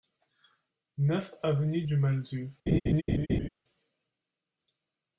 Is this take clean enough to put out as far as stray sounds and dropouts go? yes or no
no